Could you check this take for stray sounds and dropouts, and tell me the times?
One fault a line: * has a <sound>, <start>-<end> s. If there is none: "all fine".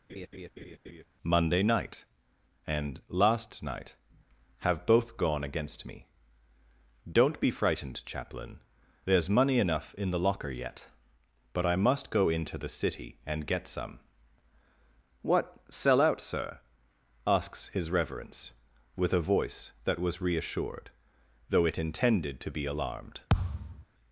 * has a laugh, 0.1-1.0 s
* has a thud, 23.3-23.8 s